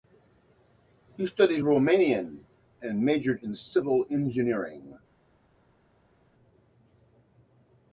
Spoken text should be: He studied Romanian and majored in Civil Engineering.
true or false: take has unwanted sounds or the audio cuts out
false